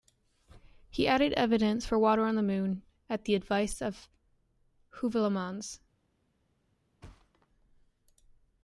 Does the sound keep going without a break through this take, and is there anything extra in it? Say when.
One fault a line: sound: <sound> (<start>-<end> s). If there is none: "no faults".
sound: thud (7.0-7.5 s)